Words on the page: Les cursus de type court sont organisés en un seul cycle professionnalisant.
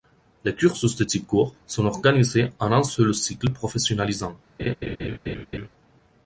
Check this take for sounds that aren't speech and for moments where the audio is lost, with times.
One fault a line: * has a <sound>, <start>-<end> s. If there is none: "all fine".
* has a laugh, 4.6-5.7 s